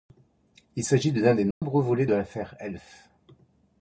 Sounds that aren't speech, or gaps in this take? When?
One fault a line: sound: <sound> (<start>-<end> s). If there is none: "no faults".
sound: dropout (1.5-1.6 s)